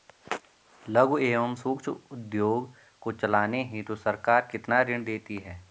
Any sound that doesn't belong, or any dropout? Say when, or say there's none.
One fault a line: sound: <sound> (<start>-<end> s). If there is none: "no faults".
no faults